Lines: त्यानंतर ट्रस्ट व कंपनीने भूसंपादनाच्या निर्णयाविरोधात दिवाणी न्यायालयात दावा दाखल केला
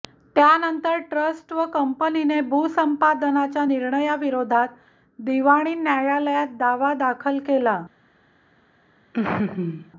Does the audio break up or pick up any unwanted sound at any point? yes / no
yes